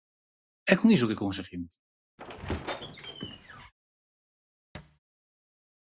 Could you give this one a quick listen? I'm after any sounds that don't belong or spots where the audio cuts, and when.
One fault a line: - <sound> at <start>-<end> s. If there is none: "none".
- squeak at 2.2-3.7 s
- thud at 4.7-5.0 s